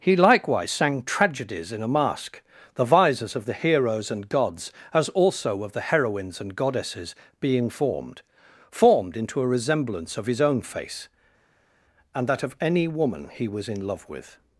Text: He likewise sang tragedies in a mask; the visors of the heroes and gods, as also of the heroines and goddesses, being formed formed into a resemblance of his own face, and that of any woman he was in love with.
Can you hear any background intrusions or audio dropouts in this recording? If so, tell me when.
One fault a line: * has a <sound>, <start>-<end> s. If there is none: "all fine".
all fine